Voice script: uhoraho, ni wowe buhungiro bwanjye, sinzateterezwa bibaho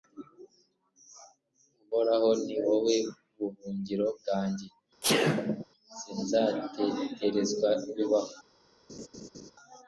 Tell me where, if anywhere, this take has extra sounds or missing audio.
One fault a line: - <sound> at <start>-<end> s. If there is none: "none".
- sneeze at 5.0-5.7 s
- laugh at 8.9-9.5 s